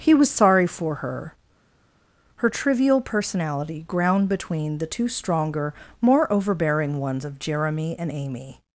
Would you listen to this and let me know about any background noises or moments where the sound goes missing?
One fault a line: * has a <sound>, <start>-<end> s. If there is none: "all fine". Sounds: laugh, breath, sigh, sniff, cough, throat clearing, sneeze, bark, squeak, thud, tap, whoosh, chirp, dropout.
all fine